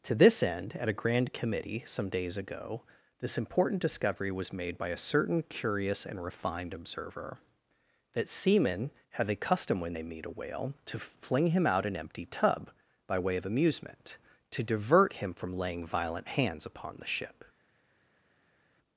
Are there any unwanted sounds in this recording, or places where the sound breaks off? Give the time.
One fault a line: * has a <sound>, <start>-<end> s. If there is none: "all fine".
all fine